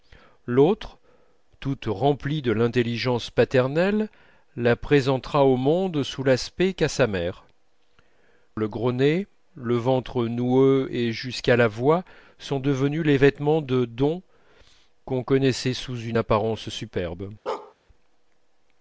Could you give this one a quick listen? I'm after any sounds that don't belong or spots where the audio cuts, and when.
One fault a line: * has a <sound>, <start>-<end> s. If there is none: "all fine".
* has a bark, 17.5-17.7 s